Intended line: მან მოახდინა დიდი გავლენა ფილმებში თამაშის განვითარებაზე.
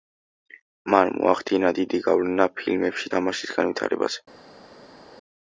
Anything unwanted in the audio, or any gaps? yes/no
no